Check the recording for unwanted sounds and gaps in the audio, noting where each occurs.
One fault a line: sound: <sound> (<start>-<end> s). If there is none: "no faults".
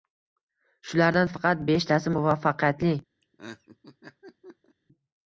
sound: laugh (3.2-4.8 s)